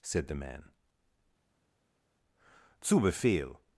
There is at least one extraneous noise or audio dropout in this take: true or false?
false